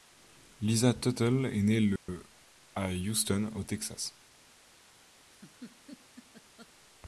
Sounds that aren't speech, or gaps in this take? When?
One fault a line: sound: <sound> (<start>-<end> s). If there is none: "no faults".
sound: dropout (2.0-2.1 s)
sound: laugh (5.3-6.7 s)